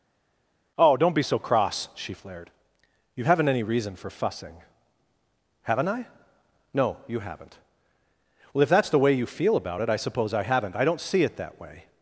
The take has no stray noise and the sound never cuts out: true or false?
true